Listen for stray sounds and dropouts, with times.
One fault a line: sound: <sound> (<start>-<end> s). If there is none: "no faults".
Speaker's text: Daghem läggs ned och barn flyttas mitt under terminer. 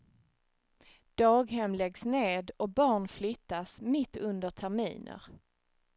no faults